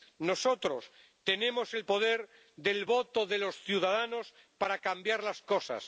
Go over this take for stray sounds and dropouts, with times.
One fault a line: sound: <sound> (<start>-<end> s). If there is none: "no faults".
no faults